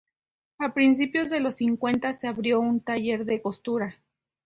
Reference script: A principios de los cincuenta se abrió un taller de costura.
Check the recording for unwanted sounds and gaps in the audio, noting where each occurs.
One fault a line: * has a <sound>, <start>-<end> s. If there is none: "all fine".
all fine